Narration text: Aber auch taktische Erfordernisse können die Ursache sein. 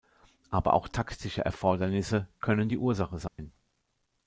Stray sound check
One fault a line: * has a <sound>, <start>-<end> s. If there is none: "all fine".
* has a dropout, 3.3-3.4 s